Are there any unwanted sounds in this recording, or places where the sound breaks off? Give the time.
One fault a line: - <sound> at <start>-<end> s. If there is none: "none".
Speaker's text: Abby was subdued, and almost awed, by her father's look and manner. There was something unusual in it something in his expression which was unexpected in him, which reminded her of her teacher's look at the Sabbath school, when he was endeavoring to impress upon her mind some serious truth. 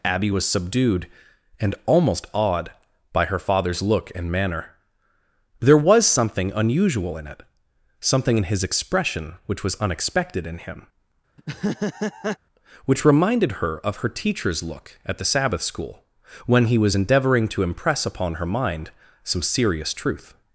- laugh at 11.4-12.4 s